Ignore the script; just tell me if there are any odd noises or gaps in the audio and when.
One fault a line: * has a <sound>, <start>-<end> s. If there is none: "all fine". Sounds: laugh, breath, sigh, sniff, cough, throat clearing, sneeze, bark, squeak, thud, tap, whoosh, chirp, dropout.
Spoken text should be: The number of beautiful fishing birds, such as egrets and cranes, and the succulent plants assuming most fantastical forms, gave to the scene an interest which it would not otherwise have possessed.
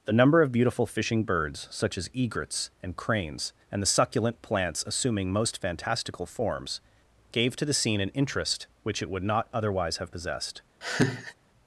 * has a laugh, 10.8-11.3 s